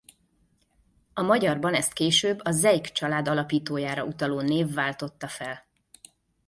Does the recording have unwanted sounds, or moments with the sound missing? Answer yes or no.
no